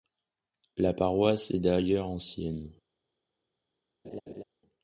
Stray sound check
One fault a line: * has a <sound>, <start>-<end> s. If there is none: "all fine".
* has a laugh, 4.0-4.4 s